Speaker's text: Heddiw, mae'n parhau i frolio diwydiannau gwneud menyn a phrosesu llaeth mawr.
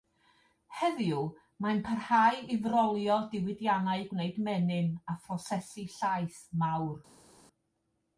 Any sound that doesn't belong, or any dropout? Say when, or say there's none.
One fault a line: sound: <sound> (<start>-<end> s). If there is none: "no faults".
no faults